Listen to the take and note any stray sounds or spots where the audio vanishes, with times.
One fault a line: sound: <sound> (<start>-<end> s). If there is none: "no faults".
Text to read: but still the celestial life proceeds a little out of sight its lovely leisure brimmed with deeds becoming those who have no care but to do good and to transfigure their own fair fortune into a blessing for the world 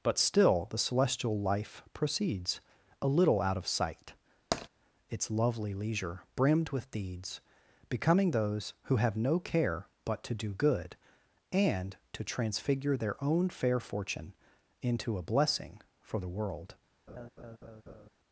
sound: tap (4.5-4.7 s)
sound: laugh (17.1-18.1 s)